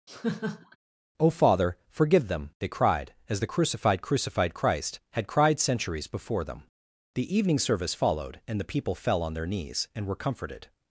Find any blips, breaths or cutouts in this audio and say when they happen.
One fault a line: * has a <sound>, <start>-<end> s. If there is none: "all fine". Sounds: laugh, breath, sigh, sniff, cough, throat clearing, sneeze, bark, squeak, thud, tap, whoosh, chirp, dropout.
* has a laugh, 0.1-0.8 s